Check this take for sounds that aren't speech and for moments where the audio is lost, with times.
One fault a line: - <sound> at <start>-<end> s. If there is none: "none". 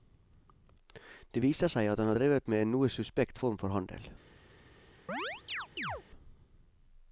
- chirp at 5.1-6.0 s